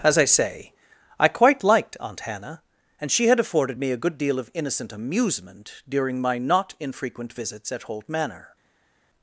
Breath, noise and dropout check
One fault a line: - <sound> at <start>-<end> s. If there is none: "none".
none